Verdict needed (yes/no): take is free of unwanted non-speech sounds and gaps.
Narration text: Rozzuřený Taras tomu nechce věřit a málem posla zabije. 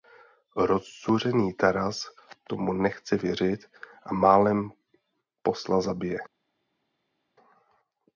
yes